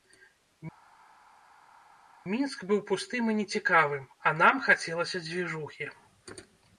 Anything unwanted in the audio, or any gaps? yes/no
no